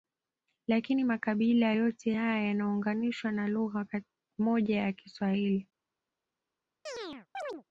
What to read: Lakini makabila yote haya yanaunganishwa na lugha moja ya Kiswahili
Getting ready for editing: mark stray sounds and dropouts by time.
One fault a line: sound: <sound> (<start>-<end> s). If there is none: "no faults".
sound: chirp (6.9-7.6 s)